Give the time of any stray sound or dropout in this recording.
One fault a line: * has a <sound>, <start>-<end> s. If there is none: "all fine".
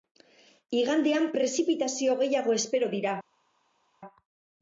all fine